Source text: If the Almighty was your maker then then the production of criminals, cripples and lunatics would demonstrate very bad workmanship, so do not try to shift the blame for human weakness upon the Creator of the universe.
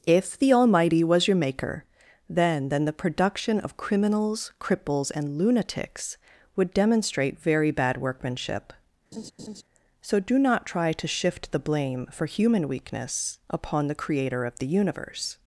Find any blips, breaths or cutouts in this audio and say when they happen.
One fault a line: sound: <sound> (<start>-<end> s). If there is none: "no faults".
sound: laugh (9.1-9.6 s)